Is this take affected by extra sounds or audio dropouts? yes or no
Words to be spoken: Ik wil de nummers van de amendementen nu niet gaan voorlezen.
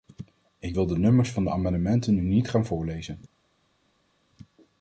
no